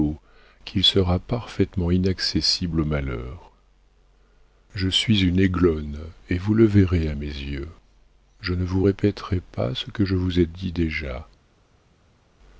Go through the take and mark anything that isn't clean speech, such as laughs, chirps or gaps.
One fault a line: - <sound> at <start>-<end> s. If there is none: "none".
none